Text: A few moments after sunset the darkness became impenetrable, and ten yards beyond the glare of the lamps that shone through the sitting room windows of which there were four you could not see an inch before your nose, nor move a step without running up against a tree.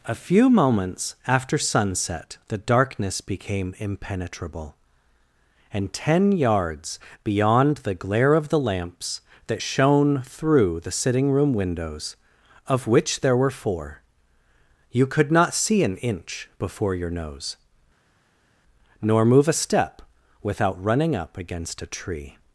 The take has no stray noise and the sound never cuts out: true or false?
true